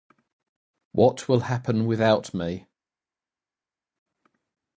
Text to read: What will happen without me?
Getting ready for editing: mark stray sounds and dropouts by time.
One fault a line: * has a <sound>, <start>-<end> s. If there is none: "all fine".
all fine